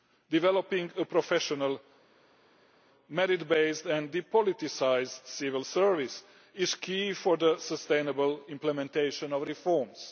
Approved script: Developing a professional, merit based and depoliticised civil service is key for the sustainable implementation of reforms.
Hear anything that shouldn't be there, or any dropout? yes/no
no